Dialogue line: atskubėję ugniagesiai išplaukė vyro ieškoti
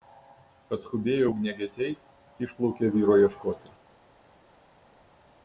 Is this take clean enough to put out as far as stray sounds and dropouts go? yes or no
yes